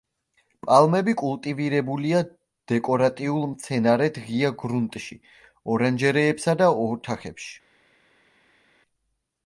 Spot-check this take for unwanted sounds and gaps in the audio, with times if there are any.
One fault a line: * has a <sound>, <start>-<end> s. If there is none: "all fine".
all fine